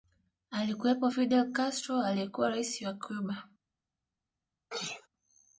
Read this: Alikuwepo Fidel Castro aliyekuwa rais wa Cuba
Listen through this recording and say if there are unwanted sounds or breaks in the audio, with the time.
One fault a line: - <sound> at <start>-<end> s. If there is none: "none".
- sneeze at 4.7-5.1 s